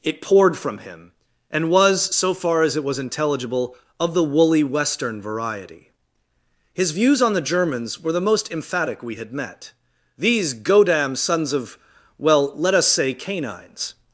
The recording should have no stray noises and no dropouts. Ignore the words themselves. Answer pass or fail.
pass